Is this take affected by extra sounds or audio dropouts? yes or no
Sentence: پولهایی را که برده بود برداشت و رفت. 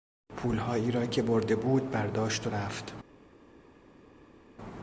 no